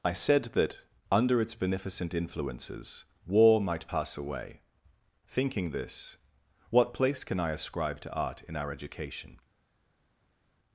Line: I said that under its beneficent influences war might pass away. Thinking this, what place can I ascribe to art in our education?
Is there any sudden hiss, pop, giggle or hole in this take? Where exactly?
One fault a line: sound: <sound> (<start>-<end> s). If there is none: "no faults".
no faults